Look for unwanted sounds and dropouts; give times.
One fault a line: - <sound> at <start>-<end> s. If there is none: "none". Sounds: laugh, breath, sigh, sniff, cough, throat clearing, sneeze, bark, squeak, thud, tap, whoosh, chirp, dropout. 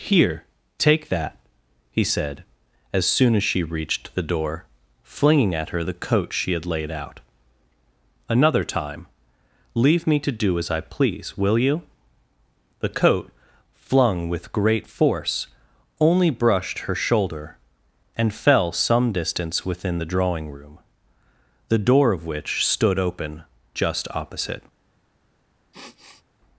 - sniff at 25.7-26.2 s